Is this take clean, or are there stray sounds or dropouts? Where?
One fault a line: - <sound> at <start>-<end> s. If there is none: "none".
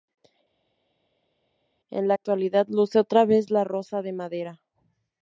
none